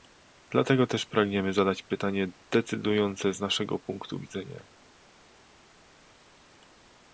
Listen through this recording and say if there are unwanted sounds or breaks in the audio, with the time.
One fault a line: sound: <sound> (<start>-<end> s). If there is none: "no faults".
no faults